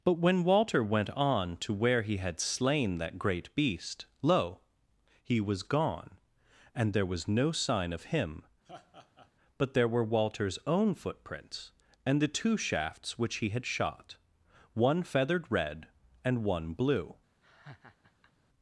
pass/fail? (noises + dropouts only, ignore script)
fail